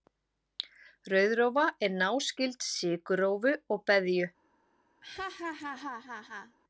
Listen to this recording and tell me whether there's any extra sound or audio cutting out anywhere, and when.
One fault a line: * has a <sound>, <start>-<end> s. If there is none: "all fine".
* has a laugh, 5.0-6.6 s